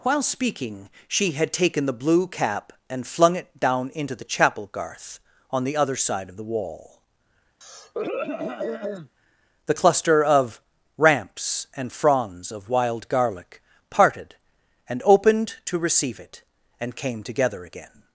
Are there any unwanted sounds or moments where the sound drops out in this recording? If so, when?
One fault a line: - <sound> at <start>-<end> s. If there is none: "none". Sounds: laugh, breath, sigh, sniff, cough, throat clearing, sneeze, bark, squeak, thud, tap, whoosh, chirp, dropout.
- throat clearing at 7.6-9.1 s